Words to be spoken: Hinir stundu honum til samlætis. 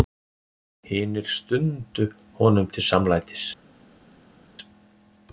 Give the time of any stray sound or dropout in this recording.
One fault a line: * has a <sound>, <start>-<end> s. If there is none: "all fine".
all fine